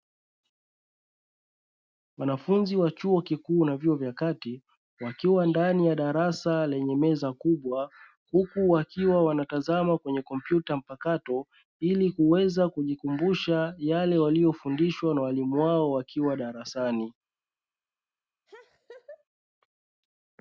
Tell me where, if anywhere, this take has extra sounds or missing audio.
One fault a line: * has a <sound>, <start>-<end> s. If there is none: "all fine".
* has a laugh, 18.5-19.2 s